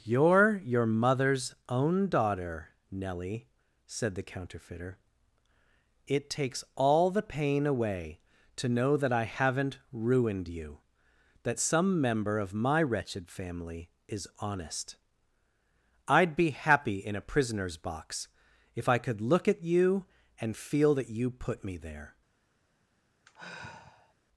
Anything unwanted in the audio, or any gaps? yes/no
yes